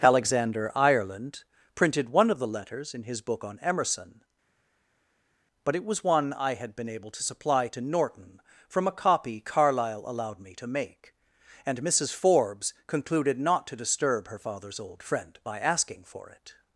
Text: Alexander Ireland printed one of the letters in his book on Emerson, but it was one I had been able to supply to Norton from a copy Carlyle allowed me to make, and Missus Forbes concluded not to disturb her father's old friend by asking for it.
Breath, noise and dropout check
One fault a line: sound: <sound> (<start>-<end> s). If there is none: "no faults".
no faults